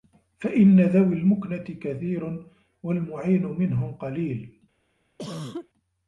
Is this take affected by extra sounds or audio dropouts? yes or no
yes